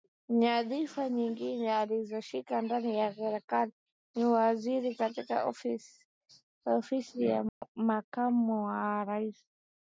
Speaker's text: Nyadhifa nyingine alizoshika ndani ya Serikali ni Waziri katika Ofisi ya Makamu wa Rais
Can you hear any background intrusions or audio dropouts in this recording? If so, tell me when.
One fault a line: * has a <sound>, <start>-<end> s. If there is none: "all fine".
* has a dropout, 7.5-7.6 s